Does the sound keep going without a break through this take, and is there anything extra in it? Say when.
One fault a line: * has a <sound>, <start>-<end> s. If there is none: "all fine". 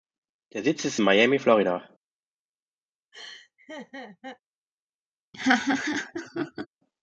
* has a laugh, 3.1-4.4 s
* has a laugh, 5.3-6.7 s